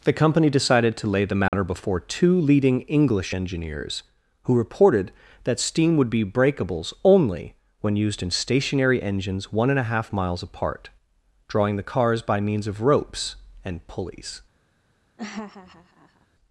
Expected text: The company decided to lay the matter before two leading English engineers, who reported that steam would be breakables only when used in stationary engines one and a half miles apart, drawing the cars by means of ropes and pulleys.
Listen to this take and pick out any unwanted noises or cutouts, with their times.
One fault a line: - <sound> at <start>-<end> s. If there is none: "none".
- dropout at 1.5-1.5 s
- laugh at 15.2-16.3 s